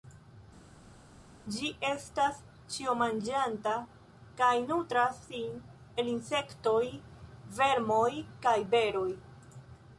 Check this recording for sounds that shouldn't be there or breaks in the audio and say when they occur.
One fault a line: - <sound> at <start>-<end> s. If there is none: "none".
none